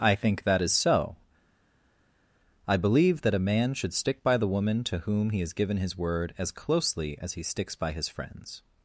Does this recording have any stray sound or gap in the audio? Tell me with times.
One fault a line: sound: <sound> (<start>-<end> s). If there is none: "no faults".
no faults